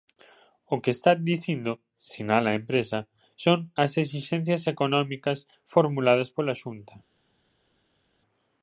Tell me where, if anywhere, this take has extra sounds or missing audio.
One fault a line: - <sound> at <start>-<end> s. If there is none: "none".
none